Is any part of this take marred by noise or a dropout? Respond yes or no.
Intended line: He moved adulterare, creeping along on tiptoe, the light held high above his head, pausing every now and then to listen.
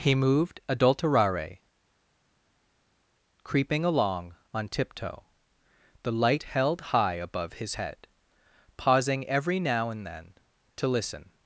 no